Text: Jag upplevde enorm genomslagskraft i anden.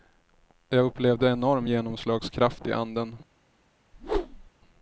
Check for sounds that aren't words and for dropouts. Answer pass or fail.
fail